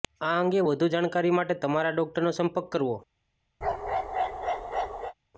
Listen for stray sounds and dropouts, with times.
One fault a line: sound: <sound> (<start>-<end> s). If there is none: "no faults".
sound: bark (3.6-5.1 s)